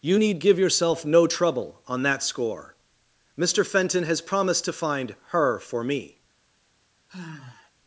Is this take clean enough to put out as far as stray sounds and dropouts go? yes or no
no